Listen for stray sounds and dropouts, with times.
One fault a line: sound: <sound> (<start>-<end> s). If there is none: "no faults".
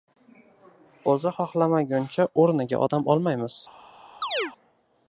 sound: chirp (4.2-4.5 s)